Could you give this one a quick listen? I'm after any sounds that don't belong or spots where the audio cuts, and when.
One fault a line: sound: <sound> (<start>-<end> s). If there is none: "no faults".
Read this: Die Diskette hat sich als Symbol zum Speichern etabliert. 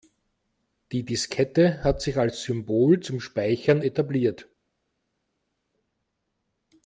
no faults